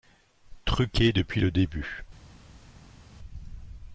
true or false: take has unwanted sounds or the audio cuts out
false